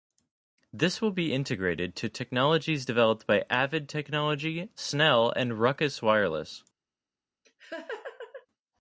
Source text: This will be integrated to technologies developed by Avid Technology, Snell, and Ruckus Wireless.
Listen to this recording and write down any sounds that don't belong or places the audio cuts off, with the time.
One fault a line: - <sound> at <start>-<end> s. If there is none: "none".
- laugh at 7.4-8.5 s